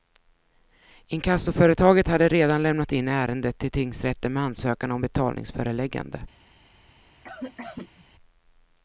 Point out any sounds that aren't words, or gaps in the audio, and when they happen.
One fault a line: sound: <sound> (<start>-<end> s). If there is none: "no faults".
sound: cough (7.2-8.1 s)